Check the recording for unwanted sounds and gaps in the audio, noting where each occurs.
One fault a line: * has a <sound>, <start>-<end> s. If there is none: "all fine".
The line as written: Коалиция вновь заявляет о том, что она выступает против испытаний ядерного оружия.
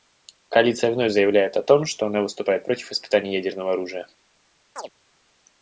* has a chirp, 4.8-4.9 s